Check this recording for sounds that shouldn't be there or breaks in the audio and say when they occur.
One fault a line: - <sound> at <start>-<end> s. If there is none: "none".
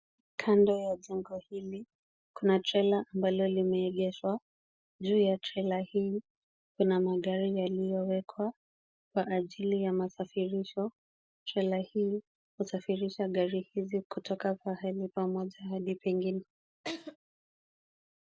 - laugh at 16.8-17.2 s